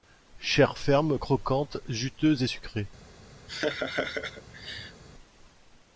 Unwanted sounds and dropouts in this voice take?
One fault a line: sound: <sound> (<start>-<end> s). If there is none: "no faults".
sound: laugh (3.5-5.0 s)